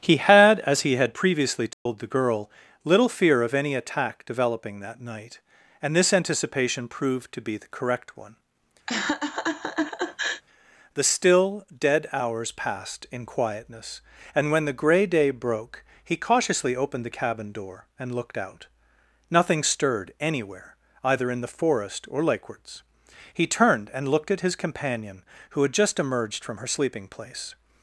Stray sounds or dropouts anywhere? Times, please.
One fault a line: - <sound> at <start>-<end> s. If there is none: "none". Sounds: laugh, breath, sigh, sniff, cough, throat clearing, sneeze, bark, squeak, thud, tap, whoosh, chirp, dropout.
- dropout at 1.7-1.9 s
- laugh at 8.9-10.4 s